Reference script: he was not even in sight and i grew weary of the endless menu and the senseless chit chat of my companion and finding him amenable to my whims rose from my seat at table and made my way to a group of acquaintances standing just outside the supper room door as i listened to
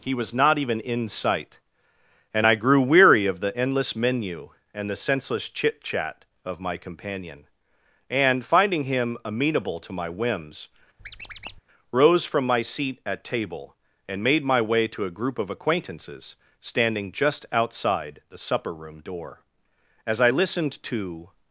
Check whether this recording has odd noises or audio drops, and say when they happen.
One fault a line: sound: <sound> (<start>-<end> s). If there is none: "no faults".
sound: squeak (11.0-11.6 s)